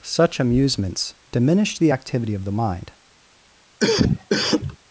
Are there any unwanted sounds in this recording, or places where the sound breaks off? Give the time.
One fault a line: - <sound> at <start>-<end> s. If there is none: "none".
- cough at 3.8-4.8 s